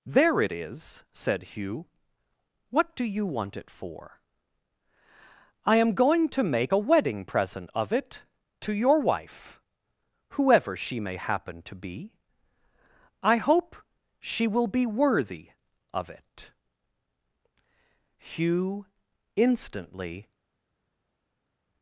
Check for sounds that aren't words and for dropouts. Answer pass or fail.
pass